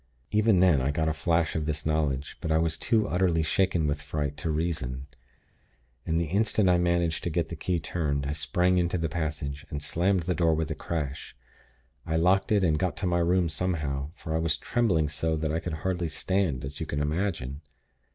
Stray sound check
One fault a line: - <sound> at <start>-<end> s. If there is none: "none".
none